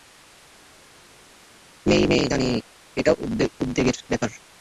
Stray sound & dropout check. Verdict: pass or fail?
pass